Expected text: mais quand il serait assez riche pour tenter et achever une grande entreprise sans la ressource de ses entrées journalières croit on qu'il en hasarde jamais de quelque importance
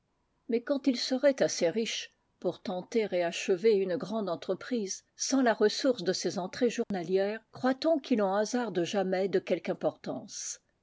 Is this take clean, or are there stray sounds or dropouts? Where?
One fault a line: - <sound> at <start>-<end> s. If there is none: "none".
- dropout at 6.8-6.9 s